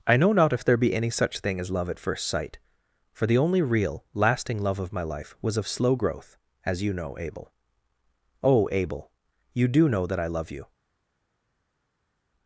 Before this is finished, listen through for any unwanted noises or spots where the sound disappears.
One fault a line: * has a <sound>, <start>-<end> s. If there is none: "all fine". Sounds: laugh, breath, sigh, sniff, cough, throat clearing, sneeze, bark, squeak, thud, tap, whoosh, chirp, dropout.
all fine